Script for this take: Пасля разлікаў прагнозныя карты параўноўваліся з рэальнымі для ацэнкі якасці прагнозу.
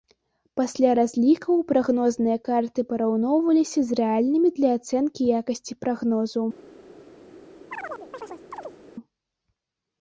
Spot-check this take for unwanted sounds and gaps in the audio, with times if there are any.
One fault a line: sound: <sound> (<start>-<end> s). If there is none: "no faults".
sound: chirp (7.7-8.8 s)